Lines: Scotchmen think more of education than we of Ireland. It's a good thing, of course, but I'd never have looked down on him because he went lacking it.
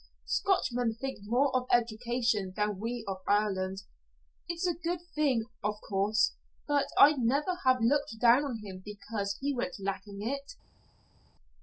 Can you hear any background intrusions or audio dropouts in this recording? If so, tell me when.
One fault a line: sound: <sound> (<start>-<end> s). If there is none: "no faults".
no faults